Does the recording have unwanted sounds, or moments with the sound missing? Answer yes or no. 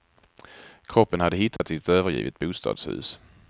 yes